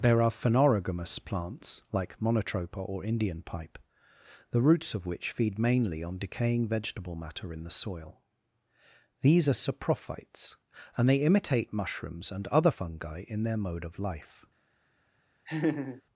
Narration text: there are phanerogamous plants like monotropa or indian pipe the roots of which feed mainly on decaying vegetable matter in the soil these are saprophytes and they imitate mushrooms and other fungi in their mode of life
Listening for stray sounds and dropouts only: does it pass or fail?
fail